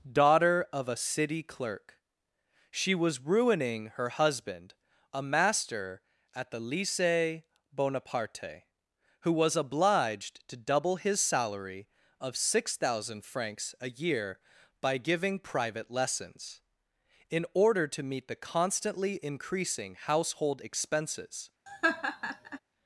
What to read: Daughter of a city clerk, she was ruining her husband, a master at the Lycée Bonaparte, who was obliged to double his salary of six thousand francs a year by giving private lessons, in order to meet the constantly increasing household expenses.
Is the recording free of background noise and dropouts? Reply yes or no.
no